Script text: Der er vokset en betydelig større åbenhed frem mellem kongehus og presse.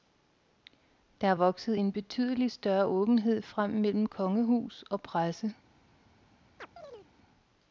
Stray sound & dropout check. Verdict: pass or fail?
fail